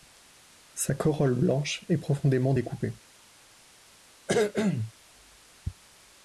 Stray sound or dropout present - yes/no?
yes